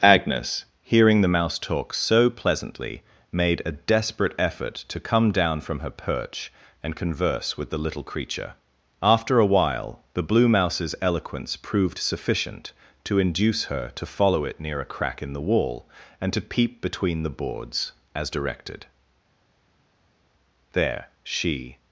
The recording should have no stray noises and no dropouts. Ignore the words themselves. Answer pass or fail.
pass